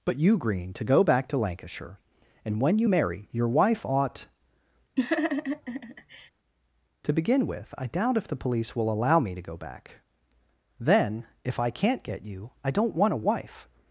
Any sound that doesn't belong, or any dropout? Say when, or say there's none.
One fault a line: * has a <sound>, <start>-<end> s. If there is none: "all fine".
* has a laugh, 5.0-6.3 s